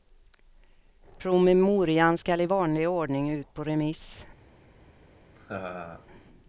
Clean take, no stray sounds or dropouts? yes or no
no